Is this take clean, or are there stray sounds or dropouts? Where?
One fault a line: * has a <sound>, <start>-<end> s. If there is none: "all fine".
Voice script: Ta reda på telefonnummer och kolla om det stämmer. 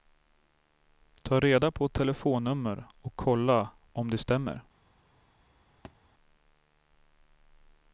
* has a thud, 5.8-6.0 s